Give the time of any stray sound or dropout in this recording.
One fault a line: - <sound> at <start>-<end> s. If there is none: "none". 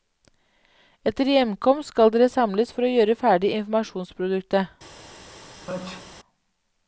- sneeze at 5.7-6.2 s